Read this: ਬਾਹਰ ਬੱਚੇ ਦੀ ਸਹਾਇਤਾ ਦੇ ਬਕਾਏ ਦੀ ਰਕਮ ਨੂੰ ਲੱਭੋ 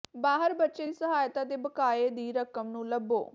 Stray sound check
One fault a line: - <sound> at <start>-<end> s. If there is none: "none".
none